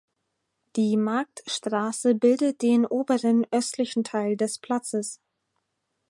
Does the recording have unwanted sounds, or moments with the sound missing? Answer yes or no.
no